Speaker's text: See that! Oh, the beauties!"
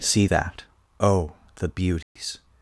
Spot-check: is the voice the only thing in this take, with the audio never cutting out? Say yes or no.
no